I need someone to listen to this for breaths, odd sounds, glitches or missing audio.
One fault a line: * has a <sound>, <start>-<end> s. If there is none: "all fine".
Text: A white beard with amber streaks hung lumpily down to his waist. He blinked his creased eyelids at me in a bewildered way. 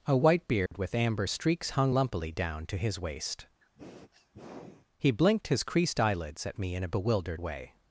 * has a dropout, 0.7-0.7 s
* has a sniff, 3.6-4.9 s